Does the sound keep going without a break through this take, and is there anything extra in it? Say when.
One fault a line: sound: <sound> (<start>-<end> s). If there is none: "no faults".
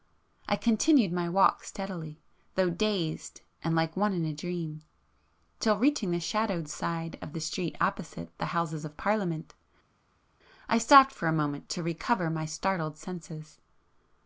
no faults